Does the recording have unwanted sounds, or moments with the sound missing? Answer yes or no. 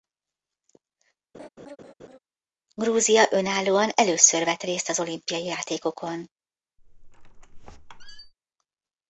yes